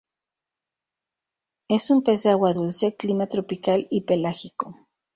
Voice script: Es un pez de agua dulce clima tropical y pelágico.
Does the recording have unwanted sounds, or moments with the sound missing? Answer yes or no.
no